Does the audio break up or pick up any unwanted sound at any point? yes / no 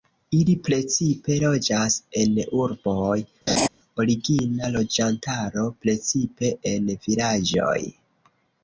yes